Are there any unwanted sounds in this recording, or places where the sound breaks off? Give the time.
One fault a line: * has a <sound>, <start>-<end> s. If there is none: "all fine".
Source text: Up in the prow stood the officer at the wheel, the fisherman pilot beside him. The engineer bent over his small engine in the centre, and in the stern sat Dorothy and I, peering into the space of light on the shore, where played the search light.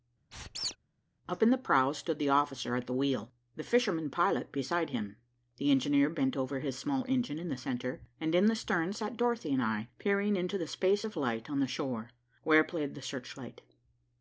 * has a squeak, 0.3-0.8 s